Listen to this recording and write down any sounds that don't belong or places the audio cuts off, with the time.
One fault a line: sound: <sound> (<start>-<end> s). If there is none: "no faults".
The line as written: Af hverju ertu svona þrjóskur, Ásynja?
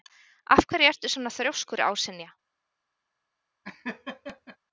sound: laugh (3.6-4.6 s)